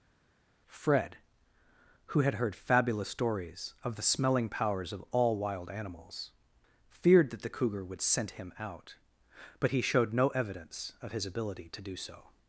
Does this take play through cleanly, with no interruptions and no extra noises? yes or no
yes